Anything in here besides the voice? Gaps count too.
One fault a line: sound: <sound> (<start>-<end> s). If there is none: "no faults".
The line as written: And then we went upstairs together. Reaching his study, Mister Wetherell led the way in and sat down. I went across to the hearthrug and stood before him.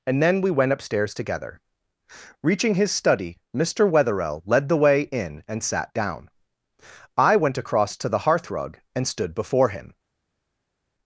no faults